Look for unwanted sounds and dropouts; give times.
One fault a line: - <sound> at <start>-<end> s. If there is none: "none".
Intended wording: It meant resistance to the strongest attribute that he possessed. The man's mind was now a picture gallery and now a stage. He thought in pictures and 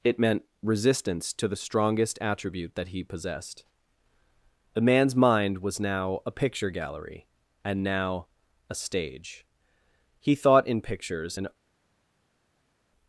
none